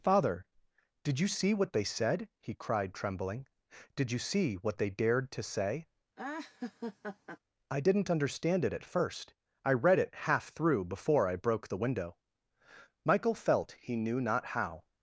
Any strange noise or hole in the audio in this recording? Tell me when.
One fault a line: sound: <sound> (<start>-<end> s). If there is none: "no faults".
sound: laugh (6.2-7.4 s)